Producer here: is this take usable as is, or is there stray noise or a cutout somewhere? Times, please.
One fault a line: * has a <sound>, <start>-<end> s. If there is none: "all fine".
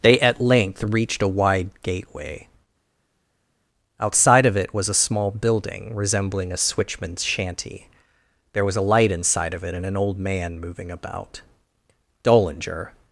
all fine